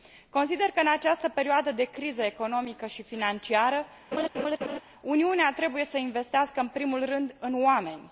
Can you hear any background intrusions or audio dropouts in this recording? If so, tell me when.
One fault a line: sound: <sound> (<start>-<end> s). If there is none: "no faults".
sound: laugh (4.1-4.8 s)